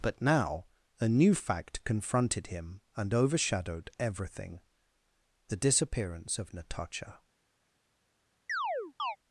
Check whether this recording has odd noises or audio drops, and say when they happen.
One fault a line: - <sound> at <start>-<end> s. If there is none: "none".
- chirp at 8.5-9.2 s